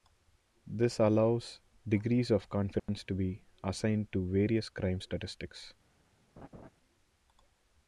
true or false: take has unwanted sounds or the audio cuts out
true